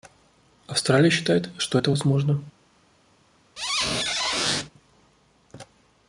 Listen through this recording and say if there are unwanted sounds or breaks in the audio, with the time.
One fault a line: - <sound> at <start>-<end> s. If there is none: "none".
- squeak at 3.6-4.7 s